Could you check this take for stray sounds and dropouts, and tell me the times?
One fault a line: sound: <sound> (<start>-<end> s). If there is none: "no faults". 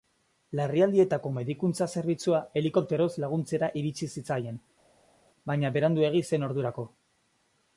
no faults